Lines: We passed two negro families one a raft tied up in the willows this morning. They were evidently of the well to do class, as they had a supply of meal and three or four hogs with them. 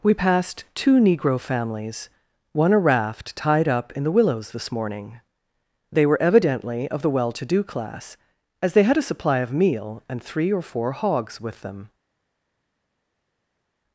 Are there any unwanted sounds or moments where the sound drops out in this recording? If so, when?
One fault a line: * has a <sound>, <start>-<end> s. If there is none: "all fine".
all fine